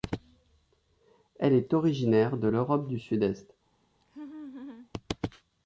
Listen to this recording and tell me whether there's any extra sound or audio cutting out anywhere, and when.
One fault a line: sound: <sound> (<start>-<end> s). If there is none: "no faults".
sound: laugh (4.0-4.9 s)